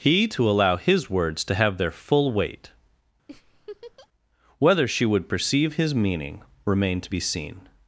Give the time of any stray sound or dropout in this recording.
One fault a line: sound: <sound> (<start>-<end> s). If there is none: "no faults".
sound: laugh (3.3-4.1 s)